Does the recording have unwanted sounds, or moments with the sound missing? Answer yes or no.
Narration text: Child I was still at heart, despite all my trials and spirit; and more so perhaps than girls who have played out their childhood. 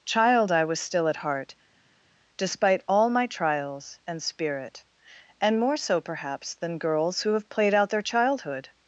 no